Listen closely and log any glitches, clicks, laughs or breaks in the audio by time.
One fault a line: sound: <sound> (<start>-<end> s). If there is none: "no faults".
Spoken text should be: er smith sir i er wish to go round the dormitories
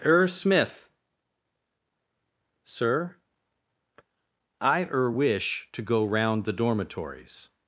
no faults